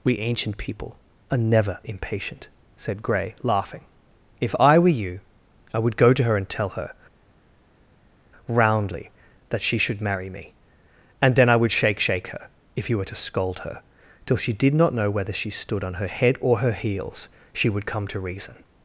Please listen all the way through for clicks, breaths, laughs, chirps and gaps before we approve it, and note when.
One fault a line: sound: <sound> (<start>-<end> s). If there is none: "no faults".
no faults